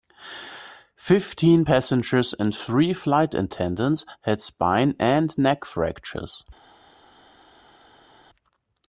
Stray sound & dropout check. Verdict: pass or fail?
pass